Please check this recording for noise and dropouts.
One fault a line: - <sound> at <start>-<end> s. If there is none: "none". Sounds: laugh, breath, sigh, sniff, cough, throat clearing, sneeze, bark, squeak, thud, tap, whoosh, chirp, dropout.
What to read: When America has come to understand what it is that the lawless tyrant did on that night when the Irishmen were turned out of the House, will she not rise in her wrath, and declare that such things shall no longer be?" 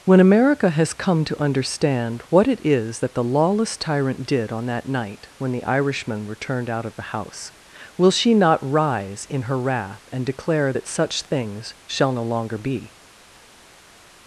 none